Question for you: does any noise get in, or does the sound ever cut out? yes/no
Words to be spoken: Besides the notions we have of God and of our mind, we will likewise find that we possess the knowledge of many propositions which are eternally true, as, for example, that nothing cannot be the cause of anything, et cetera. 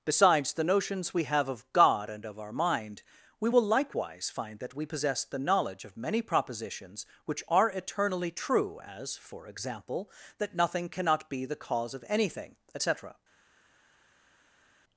no